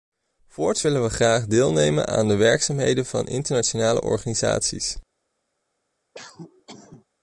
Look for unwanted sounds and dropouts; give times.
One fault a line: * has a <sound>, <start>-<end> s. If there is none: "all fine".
* has a cough, 6.1-7.0 s